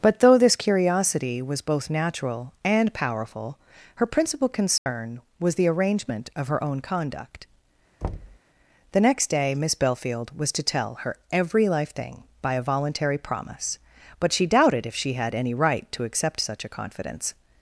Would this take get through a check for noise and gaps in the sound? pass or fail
fail